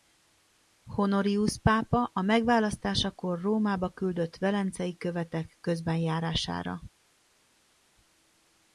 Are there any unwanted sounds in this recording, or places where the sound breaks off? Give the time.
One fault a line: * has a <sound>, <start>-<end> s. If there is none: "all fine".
all fine